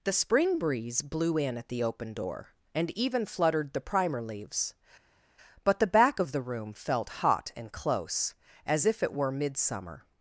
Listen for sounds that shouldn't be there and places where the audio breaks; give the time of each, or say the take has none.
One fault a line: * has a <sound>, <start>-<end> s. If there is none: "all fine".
all fine